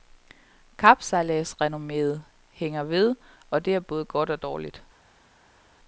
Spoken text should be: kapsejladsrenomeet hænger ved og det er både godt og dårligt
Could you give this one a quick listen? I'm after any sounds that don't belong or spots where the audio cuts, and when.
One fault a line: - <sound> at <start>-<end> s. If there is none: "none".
none